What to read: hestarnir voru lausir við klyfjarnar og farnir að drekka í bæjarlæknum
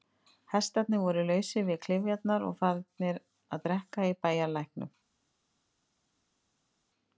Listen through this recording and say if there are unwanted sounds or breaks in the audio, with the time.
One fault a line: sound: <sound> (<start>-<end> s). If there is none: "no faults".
no faults